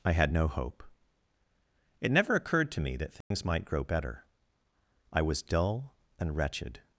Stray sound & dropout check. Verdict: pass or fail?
fail